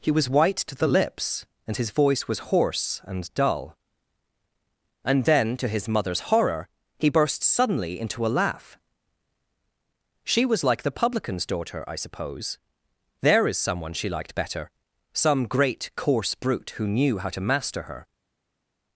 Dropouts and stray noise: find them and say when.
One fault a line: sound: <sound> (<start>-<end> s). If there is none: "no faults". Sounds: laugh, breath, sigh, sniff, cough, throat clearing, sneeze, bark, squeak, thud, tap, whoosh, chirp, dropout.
no faults